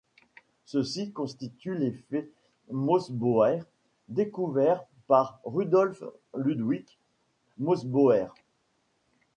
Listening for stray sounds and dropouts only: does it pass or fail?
pass